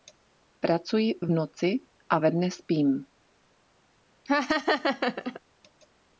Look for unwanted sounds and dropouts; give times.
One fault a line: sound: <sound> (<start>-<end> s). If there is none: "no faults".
sound: laugh (4.3-5.4 s)